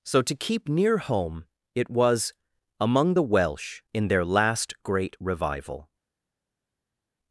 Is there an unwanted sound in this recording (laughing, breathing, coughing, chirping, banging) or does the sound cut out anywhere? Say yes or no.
no